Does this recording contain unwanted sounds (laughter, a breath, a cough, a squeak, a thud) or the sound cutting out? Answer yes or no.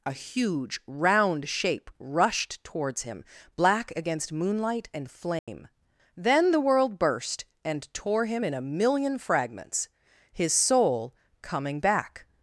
yes